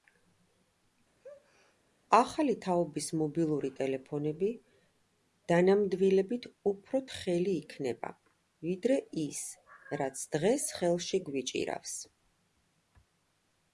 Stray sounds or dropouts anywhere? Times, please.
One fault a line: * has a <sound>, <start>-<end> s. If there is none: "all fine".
* has a sneeze, 1.2-1.8 s